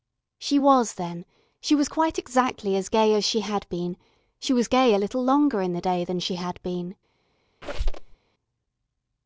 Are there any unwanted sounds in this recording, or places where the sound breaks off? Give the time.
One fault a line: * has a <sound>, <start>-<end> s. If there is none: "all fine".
* has a squeak, 7.6-8.1 s